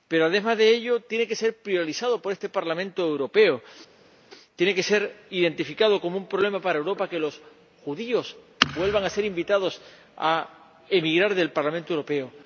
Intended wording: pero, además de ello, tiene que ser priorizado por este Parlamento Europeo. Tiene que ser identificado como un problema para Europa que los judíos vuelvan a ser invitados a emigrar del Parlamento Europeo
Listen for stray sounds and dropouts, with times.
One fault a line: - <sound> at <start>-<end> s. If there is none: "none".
none